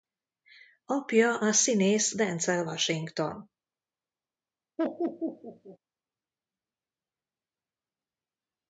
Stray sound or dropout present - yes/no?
yes